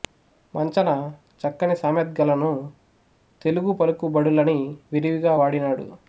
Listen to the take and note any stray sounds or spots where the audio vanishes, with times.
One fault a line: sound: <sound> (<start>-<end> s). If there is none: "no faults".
no faults